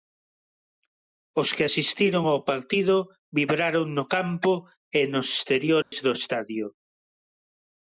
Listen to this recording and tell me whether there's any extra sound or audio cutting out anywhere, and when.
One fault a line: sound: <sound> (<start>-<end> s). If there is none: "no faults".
sound: dropout (5.8-5.9 s)